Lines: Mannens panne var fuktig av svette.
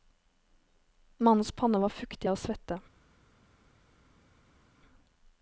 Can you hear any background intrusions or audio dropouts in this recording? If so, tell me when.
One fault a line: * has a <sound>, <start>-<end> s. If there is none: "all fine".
all fine